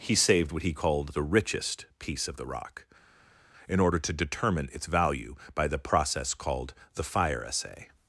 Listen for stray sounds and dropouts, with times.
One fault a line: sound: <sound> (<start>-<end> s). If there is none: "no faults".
no faults